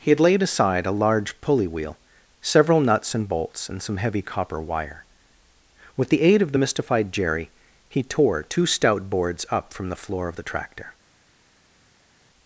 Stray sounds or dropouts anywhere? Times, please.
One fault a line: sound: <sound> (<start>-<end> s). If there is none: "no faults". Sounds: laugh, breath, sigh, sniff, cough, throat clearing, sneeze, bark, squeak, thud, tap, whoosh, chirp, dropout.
no faults